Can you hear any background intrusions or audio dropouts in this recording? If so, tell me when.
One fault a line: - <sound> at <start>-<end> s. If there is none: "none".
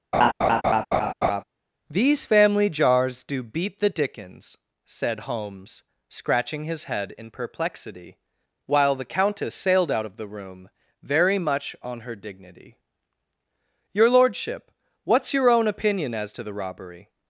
- laugh at 0.1-1.4 s